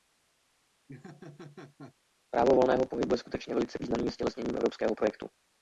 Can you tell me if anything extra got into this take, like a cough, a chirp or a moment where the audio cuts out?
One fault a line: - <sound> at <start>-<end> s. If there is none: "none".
- laugh at 0.9-1.9 s